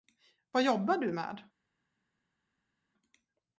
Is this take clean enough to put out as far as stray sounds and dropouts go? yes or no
yes